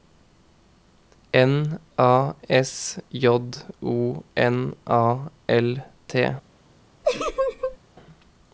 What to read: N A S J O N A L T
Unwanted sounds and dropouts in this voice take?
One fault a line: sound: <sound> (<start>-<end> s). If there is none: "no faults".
sound: laugh (7.0-7.8 s)